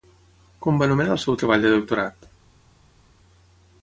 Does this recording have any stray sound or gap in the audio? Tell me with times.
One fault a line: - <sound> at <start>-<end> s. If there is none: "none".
none